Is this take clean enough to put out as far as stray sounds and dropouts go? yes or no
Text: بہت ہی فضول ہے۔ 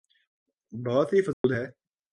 no